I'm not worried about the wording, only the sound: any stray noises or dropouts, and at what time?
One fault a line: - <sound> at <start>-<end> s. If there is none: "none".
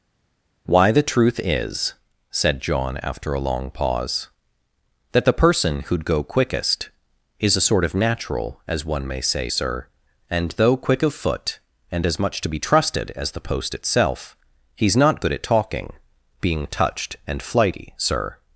none